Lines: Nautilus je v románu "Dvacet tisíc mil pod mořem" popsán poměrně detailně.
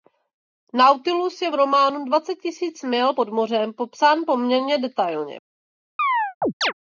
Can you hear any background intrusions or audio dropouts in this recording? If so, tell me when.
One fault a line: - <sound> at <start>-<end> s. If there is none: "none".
- chirp at 6.0-6.7 s